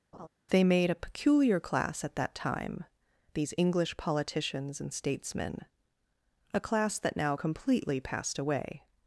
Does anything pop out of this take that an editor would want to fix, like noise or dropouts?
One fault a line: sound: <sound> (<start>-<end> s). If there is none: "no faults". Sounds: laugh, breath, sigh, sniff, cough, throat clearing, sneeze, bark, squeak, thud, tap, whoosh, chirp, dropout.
sound: laugh (0.1-0.3 s)